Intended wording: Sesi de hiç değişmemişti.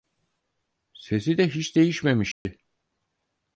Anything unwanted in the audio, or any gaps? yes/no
yes